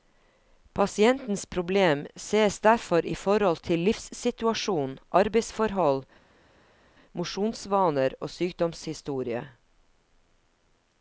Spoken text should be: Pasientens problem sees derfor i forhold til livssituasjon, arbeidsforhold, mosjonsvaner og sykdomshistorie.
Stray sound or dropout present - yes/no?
no